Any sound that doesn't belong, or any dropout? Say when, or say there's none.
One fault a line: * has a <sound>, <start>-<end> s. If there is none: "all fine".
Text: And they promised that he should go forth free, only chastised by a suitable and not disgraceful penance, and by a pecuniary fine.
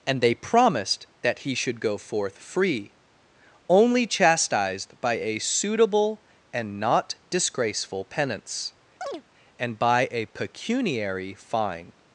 * has a chirp, 9.0-9.2 s